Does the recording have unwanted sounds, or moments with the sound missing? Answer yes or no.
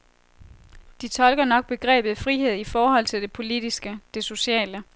no